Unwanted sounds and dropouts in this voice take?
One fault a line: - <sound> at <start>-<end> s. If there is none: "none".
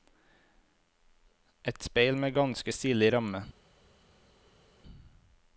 none